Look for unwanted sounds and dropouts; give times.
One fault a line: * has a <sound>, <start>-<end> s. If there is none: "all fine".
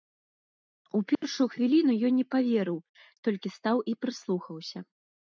* has a dropout, 1.1-1.2 s